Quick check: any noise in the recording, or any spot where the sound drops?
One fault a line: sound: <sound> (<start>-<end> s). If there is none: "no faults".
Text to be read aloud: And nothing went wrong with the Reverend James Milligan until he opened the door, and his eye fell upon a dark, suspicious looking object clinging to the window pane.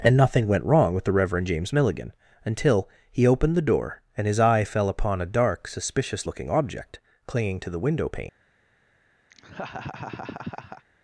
sound: laugh (9.3-10.8 s)